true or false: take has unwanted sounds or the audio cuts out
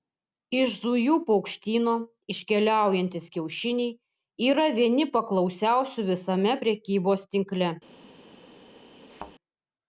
true